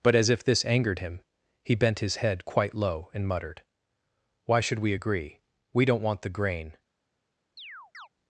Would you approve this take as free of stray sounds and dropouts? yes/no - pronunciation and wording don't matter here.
no